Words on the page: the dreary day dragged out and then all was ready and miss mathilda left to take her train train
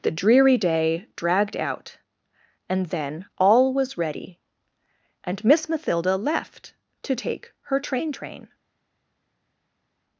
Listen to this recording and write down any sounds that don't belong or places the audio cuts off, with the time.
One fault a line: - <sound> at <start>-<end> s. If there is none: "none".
none